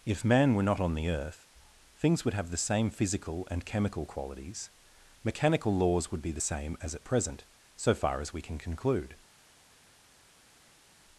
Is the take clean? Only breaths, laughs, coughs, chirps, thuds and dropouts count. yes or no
yes